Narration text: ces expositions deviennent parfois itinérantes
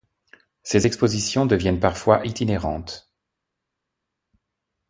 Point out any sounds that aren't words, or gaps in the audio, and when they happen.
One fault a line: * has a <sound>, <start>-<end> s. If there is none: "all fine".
all fine